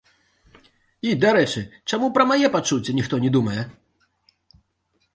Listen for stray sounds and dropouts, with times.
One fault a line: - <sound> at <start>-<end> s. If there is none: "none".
none